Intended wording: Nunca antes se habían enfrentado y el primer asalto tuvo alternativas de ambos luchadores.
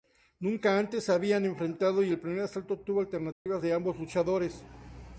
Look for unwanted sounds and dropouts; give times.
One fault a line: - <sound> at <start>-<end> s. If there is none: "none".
- dropout at 3.3-3.5 s